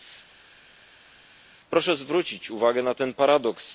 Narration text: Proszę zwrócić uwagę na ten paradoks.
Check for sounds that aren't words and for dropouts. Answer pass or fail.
pass